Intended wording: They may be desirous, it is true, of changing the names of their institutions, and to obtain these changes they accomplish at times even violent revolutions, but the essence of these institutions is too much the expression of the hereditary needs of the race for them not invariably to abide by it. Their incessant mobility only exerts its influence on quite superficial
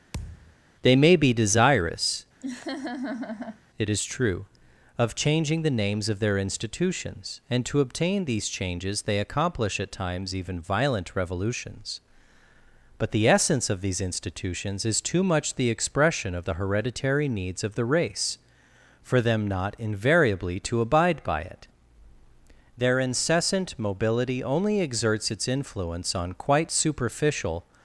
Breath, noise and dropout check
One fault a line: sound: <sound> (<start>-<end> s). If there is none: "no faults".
sound: thud (0.1-0.6 s)
sound: laugh (2.4-3.6 s)